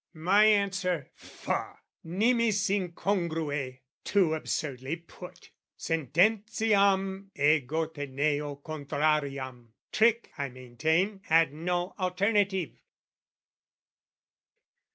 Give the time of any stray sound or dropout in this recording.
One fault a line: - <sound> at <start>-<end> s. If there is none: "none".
none